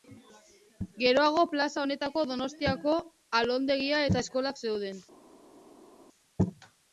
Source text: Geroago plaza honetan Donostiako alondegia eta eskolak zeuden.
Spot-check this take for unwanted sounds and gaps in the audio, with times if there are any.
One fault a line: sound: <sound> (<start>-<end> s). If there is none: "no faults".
no faults